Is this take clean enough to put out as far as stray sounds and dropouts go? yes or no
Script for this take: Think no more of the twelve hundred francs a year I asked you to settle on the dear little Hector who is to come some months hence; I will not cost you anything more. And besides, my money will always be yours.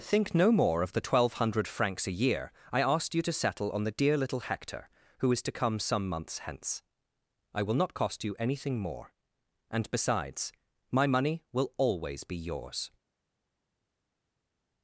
yes